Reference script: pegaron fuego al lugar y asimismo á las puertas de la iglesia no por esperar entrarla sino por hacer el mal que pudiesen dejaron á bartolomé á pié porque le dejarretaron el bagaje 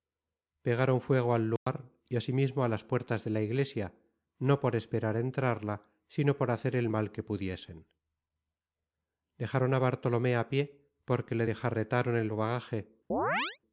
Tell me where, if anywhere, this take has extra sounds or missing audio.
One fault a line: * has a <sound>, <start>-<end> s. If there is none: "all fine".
* has a dropout, 1.6-1.7 s
* has a chirp, 13.1-13.6 s